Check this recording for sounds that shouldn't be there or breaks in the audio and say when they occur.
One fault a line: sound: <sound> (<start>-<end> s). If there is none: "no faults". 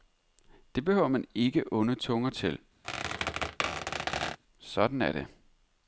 sound: squeak (2.8-4.4 s)